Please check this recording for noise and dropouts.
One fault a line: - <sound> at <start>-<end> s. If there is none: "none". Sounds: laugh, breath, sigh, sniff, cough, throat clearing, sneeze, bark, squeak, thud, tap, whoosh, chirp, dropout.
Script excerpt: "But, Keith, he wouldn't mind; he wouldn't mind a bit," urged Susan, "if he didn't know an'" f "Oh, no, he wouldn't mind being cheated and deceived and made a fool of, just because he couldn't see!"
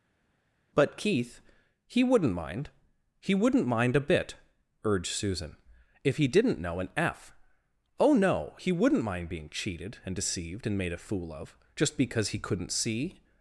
none